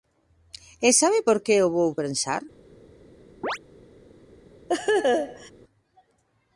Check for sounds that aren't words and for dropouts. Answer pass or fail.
fail